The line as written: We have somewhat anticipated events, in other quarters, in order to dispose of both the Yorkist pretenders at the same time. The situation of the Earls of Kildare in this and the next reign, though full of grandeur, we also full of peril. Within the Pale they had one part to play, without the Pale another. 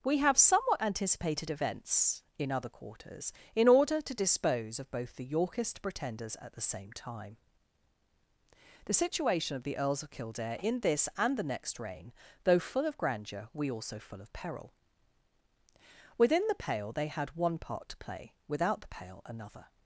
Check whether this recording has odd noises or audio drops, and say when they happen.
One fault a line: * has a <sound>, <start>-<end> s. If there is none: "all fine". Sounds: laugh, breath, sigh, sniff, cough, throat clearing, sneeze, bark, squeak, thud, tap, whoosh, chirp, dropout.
all fine